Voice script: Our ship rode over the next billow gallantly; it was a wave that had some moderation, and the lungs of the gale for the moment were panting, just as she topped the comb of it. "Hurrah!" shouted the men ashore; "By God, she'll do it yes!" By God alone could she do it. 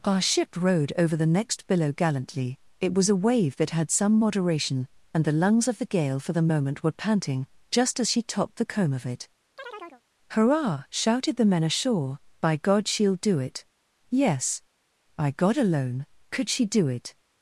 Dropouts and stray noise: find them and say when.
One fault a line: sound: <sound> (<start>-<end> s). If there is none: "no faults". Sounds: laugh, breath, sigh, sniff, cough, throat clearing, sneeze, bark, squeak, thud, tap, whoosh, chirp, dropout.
sound: chirp (9.6-10.0 s)